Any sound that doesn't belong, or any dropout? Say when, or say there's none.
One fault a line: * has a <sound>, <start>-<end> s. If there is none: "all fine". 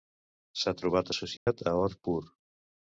* has a dropout, 1.4-1.5 s